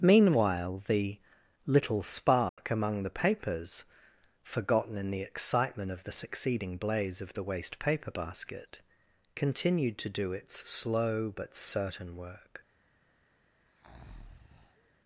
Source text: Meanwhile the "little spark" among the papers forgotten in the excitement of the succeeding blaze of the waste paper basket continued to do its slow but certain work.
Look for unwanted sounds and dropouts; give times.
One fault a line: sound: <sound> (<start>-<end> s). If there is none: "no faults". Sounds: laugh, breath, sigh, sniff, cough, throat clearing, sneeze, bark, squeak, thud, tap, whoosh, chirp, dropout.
sound: dropout (2.5-2.6 s)
sound: breath (13.6-14.9 s)